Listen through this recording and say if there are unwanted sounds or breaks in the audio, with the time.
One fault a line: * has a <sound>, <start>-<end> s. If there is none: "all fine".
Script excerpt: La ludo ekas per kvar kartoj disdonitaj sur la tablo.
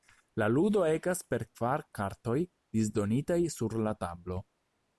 all fine